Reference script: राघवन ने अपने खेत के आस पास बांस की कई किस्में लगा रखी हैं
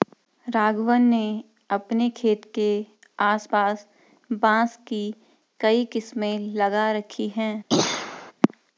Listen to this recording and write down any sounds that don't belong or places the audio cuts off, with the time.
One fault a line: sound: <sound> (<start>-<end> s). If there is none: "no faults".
sound: throat clearing (7.7-8.3 s)